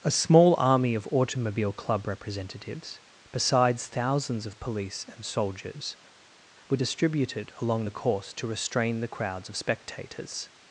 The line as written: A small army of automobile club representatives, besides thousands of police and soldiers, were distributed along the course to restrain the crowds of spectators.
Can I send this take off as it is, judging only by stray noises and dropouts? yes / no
yes